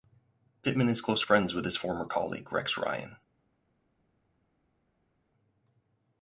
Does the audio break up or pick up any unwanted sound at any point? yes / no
no